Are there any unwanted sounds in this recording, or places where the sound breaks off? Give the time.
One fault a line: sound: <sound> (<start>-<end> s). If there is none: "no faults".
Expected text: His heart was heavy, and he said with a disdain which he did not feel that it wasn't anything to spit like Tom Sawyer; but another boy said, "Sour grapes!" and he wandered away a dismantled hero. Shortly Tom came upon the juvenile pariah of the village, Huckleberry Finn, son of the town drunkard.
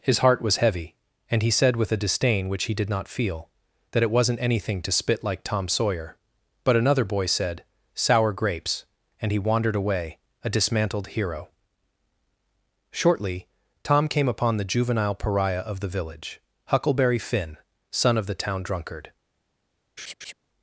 sound: laugh (20.0-20.3 s)